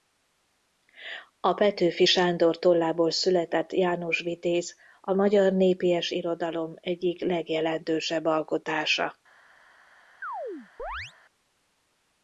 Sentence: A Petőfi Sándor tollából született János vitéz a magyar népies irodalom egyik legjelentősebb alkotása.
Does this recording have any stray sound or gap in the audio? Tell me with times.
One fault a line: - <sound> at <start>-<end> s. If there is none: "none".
- chirp at 10.2-11.1 s